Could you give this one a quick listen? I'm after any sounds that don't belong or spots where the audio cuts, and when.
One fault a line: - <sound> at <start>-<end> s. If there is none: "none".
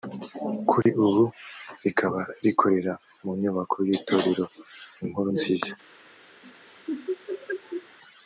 - dropout at 0.8-0.9 s
- laugh at 6.4-8.0 s